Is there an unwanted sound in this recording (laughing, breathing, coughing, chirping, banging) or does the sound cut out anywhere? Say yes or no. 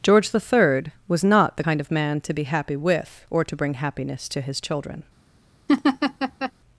yes